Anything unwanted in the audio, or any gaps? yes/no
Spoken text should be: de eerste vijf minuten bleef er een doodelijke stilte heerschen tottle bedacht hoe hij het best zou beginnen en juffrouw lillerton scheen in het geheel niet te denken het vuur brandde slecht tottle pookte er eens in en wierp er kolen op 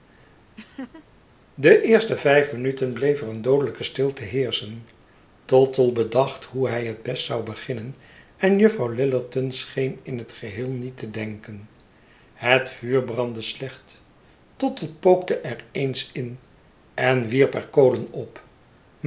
yes